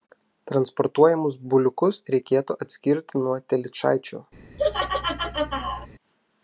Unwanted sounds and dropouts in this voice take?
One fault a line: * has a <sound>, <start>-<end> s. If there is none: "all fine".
* has a laugh, 4.6-5.9 s